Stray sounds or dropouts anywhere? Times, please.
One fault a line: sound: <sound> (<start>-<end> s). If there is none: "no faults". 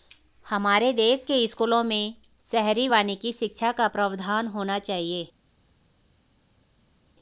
no faults